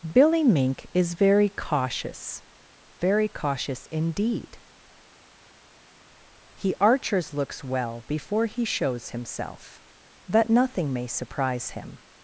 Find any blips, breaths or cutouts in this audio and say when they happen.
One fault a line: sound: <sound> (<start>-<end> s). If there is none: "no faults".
no faults